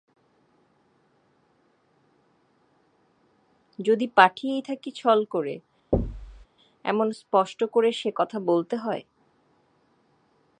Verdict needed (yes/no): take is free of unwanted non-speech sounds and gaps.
no